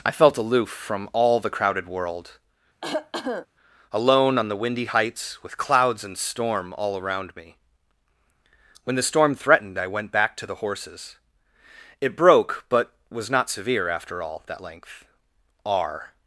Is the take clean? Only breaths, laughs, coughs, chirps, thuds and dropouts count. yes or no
no